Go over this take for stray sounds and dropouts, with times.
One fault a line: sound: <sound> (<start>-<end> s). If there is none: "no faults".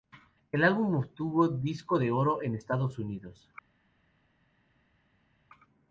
no faults